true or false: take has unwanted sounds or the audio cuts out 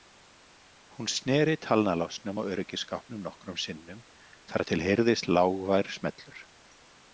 false